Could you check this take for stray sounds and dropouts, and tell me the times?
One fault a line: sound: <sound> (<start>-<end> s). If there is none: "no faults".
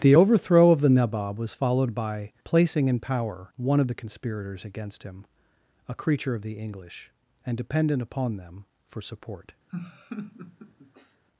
sound: laugh (9.7-11.2 s)